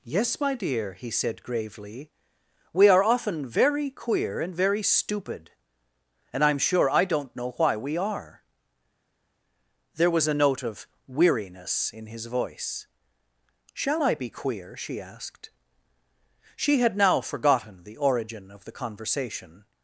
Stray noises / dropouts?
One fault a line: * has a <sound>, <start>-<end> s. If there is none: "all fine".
all fine